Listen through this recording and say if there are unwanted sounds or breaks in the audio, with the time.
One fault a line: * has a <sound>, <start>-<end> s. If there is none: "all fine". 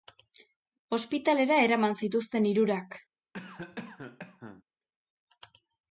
* has a cough, 3.3-4.6 s